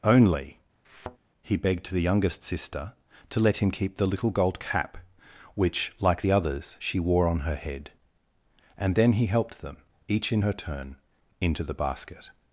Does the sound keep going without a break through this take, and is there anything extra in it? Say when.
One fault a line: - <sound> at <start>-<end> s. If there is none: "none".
- thud at 0.8-1.2 s